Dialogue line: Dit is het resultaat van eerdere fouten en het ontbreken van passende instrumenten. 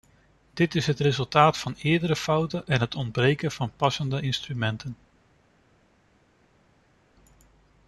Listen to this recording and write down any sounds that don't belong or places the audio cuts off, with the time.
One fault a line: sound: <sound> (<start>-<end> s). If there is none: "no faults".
no faults